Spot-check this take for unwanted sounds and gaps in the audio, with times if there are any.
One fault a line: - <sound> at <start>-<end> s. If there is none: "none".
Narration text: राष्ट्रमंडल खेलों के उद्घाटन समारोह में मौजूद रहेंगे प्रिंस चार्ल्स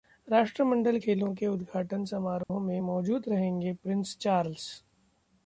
- dropout at 2.4-2.5 s